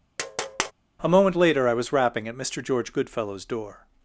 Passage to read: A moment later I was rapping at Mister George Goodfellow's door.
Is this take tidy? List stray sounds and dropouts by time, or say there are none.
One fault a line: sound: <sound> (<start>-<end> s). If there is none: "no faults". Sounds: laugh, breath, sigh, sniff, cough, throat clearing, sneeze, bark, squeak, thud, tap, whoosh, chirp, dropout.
sound: tap (0.2-0.7 s)